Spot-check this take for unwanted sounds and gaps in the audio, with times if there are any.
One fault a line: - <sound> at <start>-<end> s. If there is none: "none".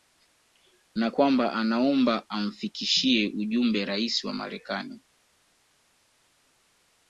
none